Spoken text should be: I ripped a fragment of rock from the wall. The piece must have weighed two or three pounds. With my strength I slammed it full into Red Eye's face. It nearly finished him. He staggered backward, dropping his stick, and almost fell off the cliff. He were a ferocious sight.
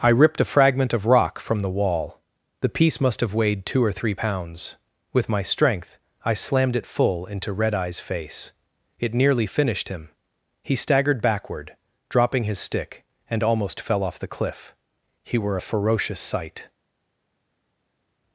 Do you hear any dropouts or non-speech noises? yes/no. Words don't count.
no